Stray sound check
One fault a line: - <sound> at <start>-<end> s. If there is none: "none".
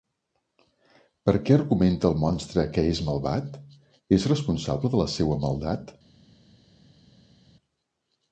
none